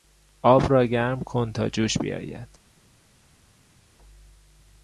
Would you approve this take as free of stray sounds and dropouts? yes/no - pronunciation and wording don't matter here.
yes